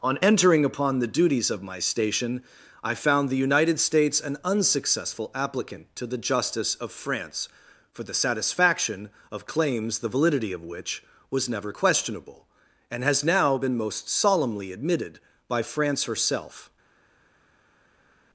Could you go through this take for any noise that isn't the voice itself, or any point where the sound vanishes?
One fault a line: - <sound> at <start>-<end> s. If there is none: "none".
none